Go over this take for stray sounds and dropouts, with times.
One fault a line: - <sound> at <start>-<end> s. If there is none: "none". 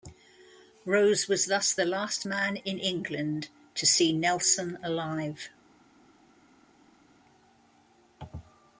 none